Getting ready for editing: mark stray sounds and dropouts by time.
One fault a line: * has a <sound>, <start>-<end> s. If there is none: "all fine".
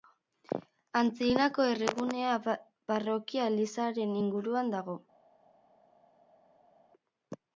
all fine